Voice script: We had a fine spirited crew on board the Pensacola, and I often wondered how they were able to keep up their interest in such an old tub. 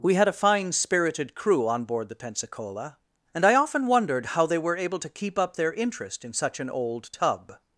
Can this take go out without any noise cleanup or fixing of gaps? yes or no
yes